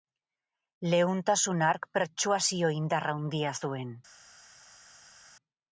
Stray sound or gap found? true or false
false